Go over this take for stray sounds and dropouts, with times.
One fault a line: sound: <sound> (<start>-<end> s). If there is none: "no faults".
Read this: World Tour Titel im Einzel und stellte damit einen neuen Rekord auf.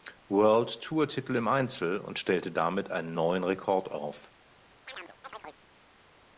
sound: chirp (4.9-5.6 s)